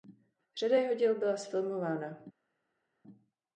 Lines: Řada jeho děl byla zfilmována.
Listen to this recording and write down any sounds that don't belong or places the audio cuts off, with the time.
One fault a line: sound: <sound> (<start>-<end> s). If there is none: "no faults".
no faults